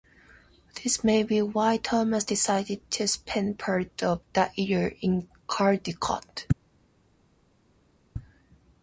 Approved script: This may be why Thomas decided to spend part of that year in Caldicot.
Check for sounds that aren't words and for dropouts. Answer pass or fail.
pass